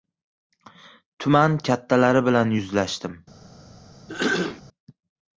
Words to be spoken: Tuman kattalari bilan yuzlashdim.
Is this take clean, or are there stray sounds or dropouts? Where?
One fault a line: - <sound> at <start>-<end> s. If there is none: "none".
- throat clearing at 4.1-4.6 s